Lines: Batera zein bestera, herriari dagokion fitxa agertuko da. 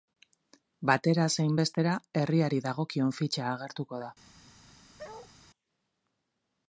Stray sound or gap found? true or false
true